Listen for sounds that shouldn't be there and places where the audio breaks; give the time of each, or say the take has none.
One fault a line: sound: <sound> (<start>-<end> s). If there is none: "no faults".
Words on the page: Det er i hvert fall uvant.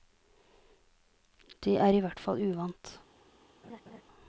sound: laugh (3.6-4.0 s)